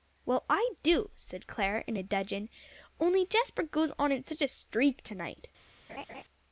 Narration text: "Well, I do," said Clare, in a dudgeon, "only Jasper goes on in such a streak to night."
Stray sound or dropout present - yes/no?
yes